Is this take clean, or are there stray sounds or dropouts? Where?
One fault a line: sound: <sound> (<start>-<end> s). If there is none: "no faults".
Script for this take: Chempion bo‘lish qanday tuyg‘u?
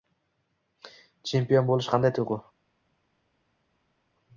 no faults